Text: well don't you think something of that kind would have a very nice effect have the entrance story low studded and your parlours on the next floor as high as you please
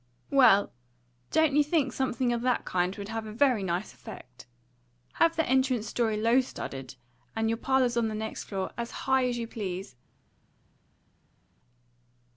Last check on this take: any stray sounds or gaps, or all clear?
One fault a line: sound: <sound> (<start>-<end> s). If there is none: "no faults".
no faults